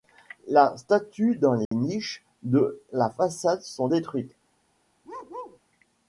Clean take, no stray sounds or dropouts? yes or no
no